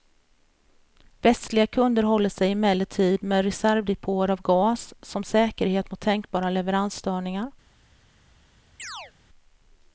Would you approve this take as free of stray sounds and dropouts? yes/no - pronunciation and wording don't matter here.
no